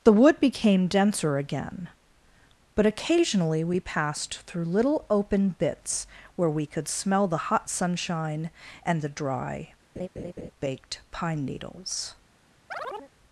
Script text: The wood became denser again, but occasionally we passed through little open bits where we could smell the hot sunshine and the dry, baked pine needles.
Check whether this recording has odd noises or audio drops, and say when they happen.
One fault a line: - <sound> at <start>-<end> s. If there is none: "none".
- laugh at 10.0-10.5 s
- chirp at 12.7-13.1 s